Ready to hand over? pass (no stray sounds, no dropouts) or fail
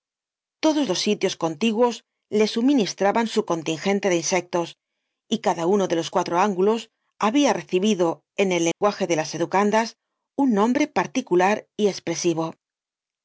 fail